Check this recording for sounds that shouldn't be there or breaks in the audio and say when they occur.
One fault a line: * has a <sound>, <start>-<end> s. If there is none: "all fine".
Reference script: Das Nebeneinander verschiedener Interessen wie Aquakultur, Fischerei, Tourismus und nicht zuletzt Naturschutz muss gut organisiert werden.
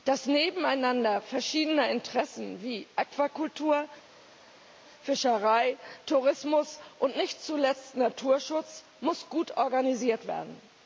all fine